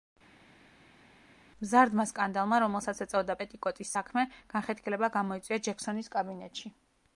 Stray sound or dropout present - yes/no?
no